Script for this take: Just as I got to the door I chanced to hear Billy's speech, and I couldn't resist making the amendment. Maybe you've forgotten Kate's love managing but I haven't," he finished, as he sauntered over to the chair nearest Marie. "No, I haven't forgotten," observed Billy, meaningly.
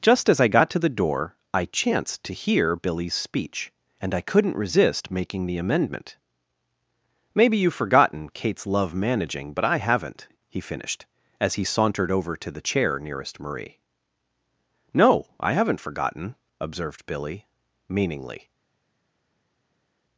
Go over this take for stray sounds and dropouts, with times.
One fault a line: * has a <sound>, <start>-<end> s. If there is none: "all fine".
all fine